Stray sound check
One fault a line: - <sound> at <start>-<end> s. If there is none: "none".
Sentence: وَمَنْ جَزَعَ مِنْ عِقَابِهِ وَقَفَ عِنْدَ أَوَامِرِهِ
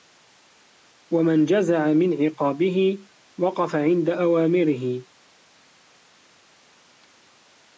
none